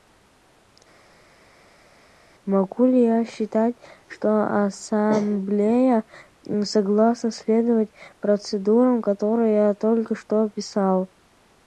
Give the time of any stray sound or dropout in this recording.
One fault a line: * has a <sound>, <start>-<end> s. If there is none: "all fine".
all fine